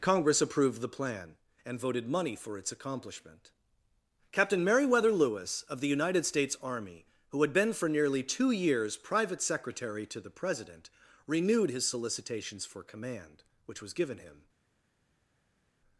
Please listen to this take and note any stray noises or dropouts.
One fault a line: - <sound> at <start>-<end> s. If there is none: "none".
none